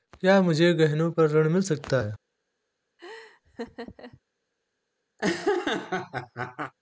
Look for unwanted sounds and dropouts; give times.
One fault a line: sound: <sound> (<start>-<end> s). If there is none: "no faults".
sound: laugh (3.0-4.2 s)
sound: laugh (5.2-6.7 s)